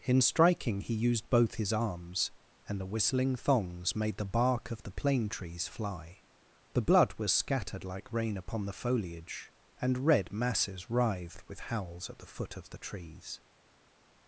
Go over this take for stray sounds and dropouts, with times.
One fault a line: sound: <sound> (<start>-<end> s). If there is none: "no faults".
no faults